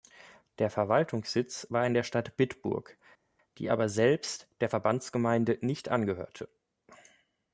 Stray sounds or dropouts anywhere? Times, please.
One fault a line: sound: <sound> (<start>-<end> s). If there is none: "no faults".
no faults